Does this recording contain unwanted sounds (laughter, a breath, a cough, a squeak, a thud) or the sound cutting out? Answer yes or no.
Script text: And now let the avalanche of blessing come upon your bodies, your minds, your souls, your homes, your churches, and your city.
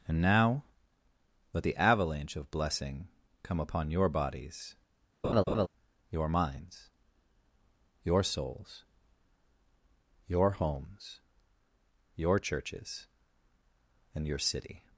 yes